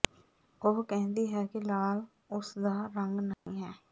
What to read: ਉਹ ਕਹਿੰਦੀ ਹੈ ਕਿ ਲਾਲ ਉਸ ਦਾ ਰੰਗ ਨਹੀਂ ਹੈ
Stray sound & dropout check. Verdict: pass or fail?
fail